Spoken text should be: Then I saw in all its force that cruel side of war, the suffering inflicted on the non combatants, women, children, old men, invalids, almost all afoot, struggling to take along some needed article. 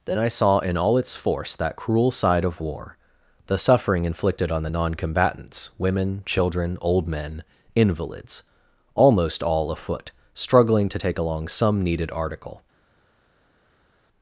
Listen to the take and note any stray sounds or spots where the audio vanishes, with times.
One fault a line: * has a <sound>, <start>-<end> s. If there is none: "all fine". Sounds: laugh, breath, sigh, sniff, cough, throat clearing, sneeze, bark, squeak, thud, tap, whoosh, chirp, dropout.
all fine